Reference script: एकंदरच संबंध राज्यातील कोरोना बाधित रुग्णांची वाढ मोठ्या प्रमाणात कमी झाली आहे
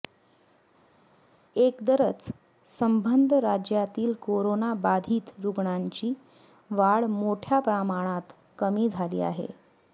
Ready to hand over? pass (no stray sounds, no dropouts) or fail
pass